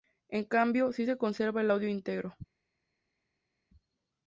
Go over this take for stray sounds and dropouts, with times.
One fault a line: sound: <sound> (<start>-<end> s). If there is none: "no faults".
no faults